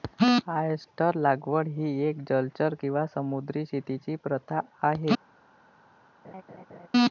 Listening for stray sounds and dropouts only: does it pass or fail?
fail